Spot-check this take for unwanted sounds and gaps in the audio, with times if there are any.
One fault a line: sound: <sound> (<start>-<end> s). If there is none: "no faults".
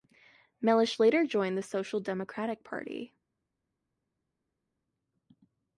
no faults